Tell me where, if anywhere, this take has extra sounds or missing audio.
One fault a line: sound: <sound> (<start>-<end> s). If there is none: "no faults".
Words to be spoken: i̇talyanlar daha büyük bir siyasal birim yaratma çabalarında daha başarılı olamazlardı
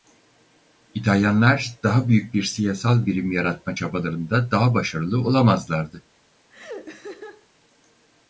sound: laugh (6.5-7.5 s)